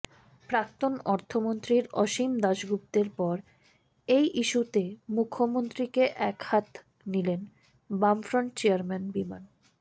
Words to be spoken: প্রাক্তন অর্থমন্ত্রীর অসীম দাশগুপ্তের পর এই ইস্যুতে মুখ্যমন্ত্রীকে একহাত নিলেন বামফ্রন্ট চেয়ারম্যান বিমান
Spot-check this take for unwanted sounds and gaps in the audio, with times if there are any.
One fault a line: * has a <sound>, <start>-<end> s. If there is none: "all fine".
all fine